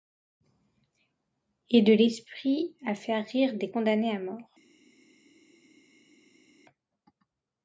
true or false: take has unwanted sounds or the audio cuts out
false